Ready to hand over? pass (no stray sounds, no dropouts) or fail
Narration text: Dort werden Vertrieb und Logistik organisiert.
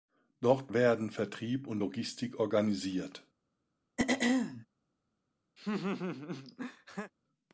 fail